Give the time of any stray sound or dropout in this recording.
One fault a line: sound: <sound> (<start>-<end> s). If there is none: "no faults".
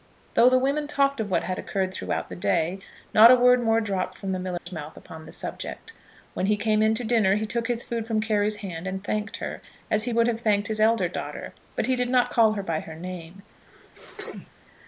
sound: dropout (4.6-4.7 s)
sound: sneeze (13.7-14.5 s)